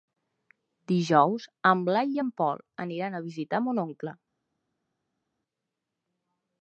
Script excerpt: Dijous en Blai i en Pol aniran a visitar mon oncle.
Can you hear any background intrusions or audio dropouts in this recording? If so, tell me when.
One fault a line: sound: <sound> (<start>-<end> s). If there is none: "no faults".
no faults